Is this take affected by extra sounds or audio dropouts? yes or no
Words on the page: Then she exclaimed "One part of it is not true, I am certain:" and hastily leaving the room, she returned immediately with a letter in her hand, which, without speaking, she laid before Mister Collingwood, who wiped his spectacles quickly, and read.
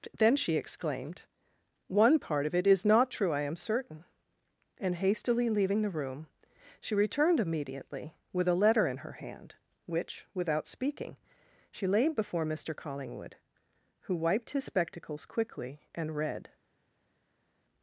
no